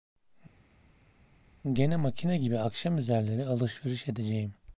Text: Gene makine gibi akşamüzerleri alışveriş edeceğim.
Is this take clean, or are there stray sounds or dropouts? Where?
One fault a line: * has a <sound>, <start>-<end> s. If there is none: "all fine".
all fine